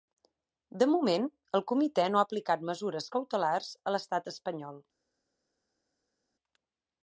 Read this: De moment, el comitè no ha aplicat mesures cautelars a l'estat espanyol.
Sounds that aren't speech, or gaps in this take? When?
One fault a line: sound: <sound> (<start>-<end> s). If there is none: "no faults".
no faults